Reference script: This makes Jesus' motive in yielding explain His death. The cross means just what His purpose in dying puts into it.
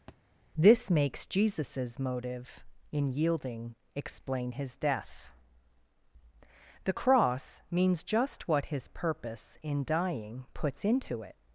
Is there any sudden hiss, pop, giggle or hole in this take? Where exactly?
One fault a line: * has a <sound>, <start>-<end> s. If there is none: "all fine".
* has a thud, 0.1-0.2 s